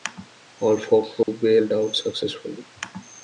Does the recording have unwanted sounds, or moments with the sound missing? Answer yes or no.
yes